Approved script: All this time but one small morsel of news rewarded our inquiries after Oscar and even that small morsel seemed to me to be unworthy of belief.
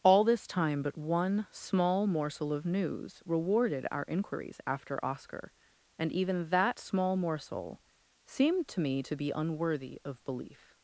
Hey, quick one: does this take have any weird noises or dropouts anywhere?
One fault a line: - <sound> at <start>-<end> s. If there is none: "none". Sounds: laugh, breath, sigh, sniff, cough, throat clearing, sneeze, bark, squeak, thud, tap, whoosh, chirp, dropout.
none